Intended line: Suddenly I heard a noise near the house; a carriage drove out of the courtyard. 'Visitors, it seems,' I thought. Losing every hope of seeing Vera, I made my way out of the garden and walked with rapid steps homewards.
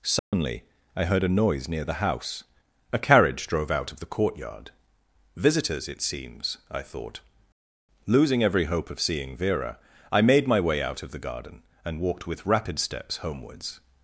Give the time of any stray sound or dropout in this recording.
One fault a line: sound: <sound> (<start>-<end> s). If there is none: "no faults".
sound: dropout (0.2-0.3 s)